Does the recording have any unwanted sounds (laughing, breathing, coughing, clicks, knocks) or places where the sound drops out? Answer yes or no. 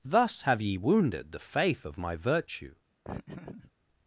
yes